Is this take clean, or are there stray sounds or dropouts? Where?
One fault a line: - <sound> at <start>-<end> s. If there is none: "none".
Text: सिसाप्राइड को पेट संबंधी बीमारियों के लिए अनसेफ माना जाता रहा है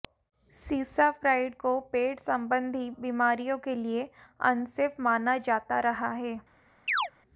- chirp at 6.9-7.1 s